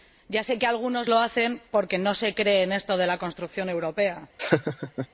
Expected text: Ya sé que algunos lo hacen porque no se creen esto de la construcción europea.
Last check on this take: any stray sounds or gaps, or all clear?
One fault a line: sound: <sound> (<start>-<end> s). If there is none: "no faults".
sound: laugh (4.4-5.1 s)